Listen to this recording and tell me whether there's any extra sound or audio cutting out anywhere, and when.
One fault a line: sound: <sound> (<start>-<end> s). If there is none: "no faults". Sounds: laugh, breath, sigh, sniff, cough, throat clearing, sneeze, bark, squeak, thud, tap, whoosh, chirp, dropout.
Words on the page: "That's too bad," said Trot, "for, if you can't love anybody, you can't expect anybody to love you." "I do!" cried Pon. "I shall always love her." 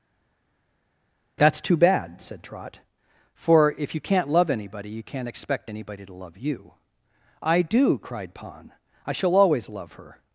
no faults